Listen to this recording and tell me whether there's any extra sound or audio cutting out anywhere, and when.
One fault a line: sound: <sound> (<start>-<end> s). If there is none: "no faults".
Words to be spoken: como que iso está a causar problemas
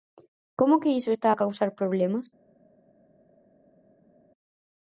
no faults